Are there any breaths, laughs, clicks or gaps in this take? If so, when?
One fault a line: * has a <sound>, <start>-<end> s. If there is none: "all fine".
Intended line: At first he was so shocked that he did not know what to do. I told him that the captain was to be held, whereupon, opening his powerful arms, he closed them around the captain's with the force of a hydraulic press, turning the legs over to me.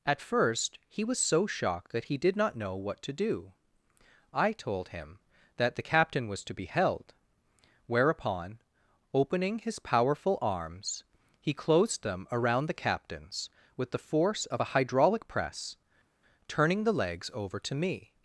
all fine